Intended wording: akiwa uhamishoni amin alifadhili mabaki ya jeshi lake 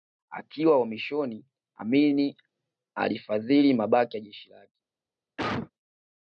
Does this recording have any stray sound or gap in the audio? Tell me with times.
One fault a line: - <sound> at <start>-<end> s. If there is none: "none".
- cough at 5.4-5.7 s